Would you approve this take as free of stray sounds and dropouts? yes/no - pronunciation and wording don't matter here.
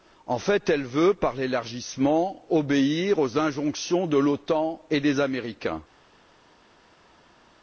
yes